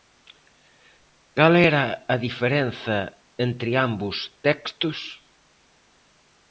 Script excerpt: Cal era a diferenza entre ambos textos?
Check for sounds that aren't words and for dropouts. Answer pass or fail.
pass